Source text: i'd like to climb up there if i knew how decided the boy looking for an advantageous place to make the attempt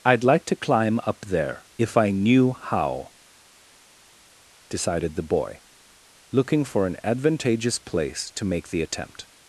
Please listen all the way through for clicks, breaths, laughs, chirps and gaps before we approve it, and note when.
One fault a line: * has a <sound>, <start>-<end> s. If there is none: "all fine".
all fine